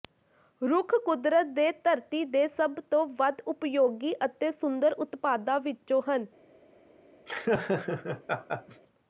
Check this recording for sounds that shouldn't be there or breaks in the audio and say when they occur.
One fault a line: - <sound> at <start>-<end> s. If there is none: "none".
- laugh at 7.3-8.8 s